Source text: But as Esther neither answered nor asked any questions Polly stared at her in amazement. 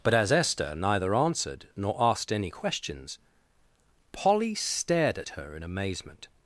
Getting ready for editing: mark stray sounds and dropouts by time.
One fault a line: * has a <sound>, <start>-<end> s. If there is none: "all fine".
all fine